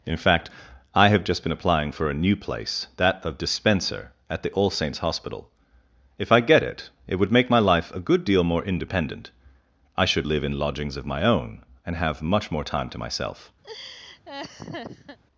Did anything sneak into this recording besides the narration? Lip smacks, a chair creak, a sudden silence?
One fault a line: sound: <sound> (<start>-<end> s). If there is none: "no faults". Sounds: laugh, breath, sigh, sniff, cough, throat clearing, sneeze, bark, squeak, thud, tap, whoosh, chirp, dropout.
sound: laugh (13.6-15.2 s)